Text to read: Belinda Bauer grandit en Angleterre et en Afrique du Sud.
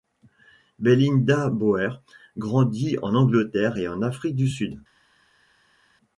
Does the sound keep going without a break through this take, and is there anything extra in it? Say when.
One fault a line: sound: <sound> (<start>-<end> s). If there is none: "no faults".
no faults